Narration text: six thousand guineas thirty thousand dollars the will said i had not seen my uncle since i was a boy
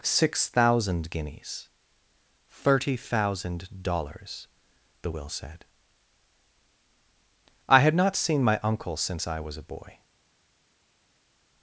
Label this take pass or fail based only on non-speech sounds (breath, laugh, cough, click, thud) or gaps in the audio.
pass